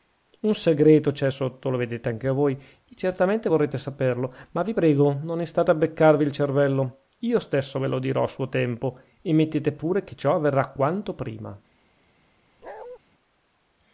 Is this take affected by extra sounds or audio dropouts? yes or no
yes